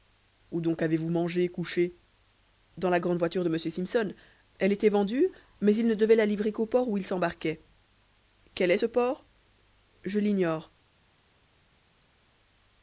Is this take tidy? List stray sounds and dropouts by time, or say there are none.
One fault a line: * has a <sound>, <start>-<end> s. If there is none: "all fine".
all fine